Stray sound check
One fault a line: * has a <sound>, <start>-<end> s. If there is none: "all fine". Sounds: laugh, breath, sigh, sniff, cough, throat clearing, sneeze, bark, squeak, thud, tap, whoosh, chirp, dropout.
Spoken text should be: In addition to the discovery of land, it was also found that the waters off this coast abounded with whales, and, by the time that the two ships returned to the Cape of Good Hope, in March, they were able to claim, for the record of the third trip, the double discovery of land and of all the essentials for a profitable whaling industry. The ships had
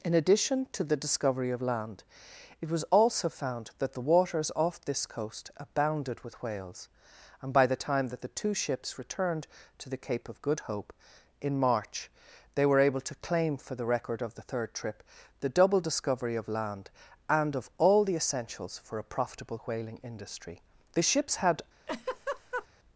* has a laugh, 21.9-22.7 s